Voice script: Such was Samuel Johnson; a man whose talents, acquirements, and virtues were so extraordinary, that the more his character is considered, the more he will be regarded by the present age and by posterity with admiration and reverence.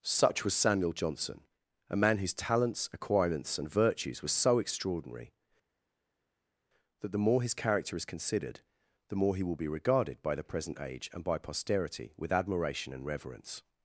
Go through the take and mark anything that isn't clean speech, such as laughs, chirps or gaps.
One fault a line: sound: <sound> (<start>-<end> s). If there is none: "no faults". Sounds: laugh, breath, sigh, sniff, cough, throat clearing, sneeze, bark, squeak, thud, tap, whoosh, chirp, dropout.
no faults